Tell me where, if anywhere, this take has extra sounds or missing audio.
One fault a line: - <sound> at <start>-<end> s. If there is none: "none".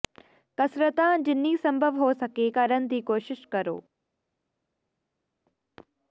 none